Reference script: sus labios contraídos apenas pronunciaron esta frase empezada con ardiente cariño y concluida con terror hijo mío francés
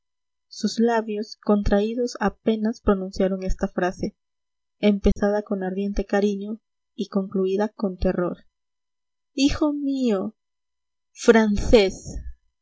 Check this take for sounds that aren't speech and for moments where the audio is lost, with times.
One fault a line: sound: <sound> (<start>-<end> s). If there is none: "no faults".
sound: dropout (5.1-5.2 s)